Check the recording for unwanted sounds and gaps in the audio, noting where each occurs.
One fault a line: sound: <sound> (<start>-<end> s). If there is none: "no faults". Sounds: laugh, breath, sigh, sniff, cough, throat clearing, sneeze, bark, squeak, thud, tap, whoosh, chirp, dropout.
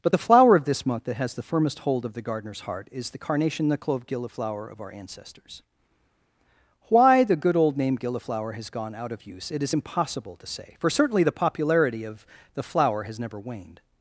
no faults